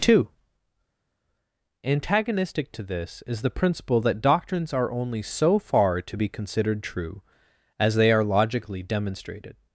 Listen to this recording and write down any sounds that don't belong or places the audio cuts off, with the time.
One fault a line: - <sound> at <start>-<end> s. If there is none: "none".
none